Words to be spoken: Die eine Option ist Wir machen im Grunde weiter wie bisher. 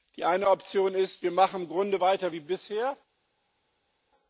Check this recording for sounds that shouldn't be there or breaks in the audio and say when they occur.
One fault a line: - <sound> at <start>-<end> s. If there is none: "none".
none